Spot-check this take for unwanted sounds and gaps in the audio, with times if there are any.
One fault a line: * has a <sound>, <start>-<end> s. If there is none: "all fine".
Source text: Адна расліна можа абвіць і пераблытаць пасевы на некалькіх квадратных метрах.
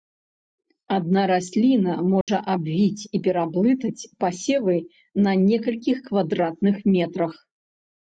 * has a dropout, 2.2-2.3 s